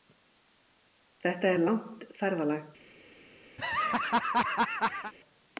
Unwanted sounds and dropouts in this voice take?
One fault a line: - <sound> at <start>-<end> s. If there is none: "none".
- laugh at 3.6-5.1 s